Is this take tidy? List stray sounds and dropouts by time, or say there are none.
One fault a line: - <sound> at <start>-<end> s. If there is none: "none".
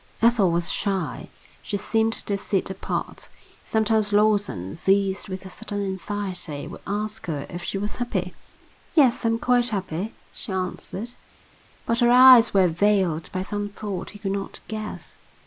none